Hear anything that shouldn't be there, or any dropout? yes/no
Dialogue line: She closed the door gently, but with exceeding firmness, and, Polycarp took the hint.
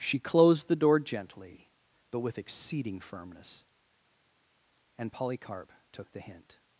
no